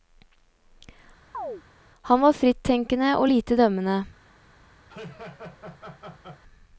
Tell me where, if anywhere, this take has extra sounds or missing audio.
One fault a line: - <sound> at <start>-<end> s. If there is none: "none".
- chirp at 1.3-1.6 s
- laugh at 4.9-6.4 s